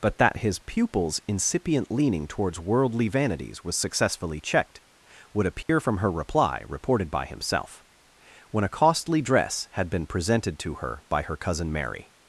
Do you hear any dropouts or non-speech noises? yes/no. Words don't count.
yes